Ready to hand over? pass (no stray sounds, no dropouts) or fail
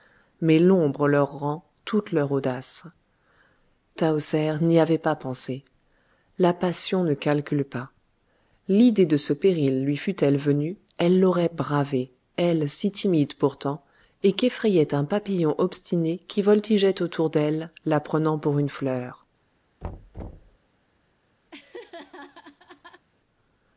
fail